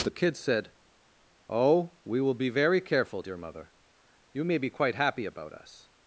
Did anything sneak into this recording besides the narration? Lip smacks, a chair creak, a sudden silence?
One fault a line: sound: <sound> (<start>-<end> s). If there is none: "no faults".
no faults